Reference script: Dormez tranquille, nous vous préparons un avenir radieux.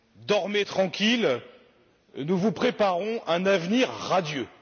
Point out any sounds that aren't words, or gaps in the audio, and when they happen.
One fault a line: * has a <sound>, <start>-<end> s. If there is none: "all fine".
all fine